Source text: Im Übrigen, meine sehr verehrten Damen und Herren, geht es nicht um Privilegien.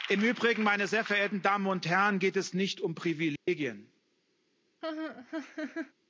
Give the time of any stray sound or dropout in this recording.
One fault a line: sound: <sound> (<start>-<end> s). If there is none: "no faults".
sound: dropout (3.4-3.5 s)
sound: laugh (4.8-5.9 s)